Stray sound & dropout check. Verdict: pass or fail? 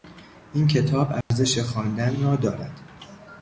fail